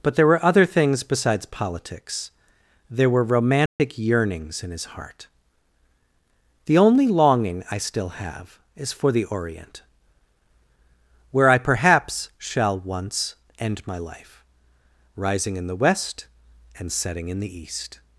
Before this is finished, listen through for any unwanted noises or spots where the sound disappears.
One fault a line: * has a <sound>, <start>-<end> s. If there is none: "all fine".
* has a dropout, 3.7-3.8 s